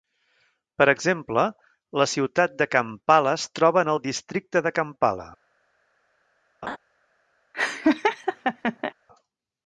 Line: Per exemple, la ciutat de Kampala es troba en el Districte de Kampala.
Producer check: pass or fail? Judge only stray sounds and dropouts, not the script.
fail